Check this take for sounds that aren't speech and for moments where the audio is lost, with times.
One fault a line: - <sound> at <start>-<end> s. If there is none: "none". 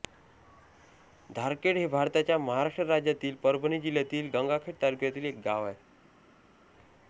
none